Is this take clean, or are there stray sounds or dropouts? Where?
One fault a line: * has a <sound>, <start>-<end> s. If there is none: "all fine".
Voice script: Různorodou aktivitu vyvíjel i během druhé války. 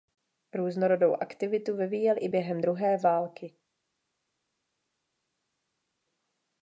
all fine